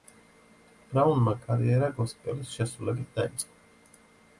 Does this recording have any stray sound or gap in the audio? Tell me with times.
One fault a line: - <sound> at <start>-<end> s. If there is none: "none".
none